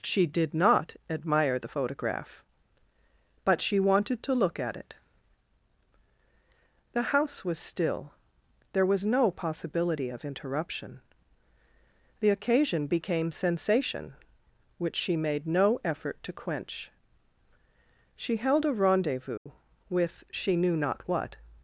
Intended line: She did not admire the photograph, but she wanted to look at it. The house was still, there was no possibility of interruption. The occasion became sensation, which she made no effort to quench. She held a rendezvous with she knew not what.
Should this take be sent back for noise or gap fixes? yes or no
yes